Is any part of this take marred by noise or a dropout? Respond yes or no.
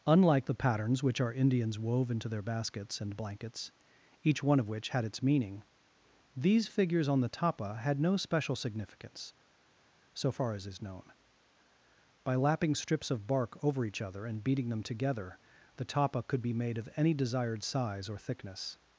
no